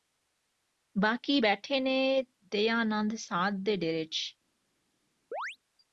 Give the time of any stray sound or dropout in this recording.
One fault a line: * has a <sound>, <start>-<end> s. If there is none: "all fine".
* has a chirp, 5.3-5.6 s